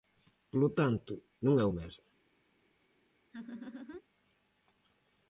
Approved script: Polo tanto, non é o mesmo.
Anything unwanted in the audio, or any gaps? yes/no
yes